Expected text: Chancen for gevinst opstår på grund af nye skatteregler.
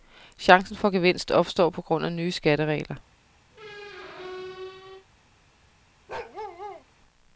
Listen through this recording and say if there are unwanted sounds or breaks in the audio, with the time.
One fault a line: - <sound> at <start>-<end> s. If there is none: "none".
- squeak at 3.5-5.1 s
- bark at 6.1-6.9 s